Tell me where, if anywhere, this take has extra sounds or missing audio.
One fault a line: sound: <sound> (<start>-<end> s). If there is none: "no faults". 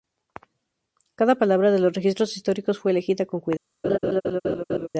sound: laugh (3.8-4.9 s)